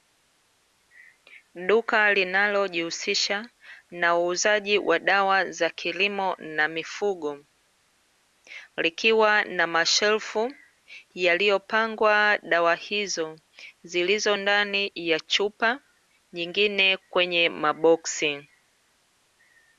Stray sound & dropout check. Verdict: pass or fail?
pass